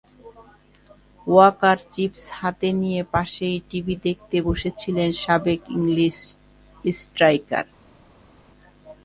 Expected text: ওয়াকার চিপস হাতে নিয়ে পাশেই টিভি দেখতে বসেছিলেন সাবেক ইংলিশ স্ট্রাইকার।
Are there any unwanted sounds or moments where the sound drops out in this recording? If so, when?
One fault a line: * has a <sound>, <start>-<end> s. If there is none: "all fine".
all fine